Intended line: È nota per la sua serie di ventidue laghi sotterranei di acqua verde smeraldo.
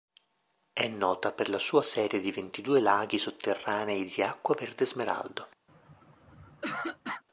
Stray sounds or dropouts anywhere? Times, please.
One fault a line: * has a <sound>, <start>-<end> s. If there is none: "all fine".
* has a throat clearing, 5.7-7.2 s